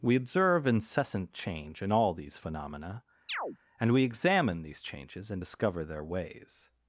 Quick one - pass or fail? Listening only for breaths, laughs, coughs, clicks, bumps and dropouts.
fail